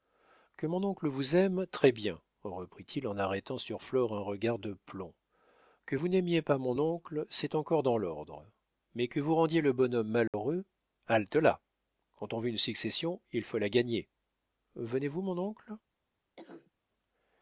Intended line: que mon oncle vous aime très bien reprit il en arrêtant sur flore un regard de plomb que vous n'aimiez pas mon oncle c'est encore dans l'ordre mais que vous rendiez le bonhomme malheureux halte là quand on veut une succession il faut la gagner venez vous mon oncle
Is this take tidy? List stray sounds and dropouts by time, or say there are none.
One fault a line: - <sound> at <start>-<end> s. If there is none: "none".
- dropout at 10.3-10.3 s
- cough at 16.4-16.7 s